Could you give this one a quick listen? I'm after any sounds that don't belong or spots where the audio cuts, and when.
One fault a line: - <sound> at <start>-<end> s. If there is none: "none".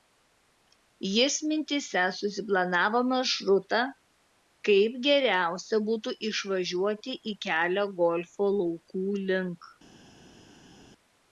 none